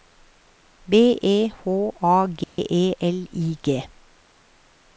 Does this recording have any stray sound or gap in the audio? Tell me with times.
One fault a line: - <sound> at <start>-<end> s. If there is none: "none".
- dropout at 2.4-2.6 s